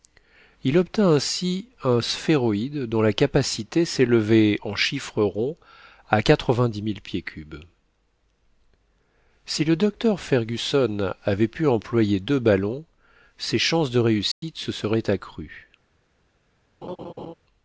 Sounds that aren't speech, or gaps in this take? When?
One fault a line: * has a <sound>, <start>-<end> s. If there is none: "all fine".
* has a dropout, 14.3-14.4 s
* has a laugh, 16.8-17.3 s